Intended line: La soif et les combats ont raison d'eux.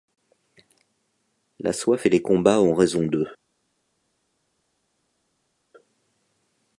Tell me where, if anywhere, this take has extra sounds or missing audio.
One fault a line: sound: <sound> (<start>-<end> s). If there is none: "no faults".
no faults